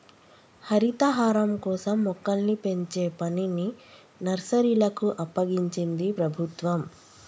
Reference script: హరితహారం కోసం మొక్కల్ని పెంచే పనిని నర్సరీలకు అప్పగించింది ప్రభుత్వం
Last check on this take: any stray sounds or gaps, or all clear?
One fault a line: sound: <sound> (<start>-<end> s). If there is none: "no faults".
no faults